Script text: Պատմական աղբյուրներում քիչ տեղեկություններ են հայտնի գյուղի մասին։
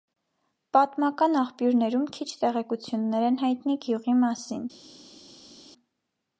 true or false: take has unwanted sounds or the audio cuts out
false